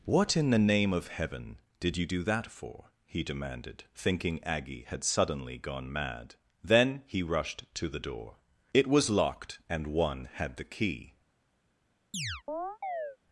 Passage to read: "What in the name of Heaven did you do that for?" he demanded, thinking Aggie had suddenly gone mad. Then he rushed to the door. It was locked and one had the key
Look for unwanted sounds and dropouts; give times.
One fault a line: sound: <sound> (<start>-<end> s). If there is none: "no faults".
sound: chirp (12.1-13.2 s)